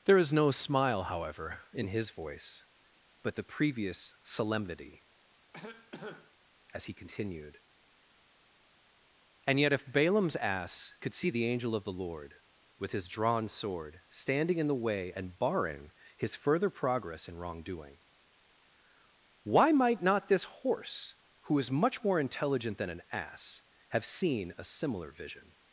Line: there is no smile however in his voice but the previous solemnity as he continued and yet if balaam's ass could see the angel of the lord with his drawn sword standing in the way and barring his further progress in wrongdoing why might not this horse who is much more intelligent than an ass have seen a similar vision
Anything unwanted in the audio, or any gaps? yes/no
yes